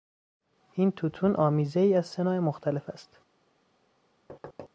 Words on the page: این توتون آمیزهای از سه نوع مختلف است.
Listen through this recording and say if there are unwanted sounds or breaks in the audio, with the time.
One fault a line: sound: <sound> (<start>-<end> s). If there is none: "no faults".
sound: thud (4.3-4.7 s)